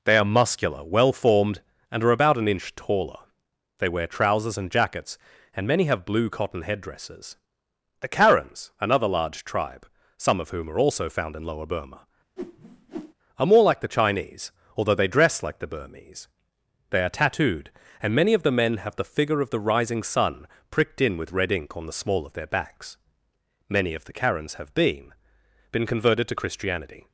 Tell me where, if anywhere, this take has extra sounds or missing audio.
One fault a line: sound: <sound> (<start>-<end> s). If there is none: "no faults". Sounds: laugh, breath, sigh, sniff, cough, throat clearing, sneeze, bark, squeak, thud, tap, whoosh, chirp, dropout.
sound: whoosh (12.4-13.1 s)